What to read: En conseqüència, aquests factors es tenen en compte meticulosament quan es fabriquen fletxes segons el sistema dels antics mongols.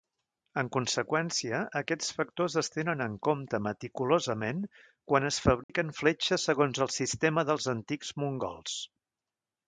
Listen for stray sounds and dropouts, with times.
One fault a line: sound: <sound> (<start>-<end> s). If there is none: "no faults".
sound: dropout (5.6-5.7 s)